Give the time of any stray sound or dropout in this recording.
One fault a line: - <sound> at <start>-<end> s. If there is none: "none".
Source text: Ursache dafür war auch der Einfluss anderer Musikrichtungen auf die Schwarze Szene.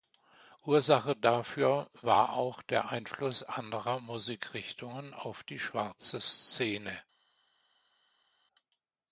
none